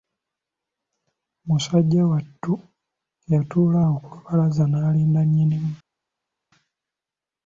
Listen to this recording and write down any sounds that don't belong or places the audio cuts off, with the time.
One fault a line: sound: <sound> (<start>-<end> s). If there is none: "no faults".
no faults